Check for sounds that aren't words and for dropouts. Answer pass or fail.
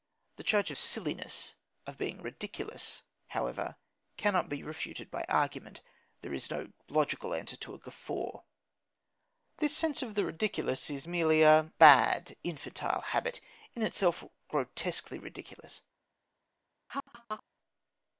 fail